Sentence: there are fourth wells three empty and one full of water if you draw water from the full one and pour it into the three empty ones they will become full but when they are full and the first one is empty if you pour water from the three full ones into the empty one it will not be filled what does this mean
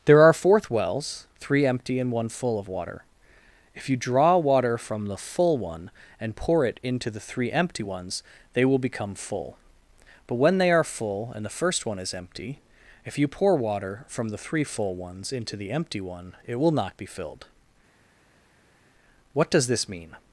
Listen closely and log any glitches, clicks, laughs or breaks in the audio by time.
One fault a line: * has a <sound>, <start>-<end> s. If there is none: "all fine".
all fine